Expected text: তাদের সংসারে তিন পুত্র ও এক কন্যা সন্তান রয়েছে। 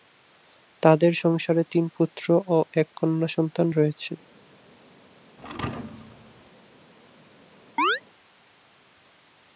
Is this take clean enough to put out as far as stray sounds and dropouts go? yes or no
no